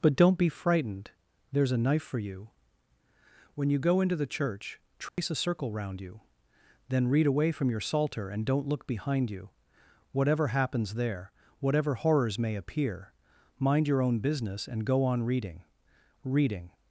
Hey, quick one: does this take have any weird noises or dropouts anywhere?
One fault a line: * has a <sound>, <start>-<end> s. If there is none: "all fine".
* has a dropout, 5.1-5.2 s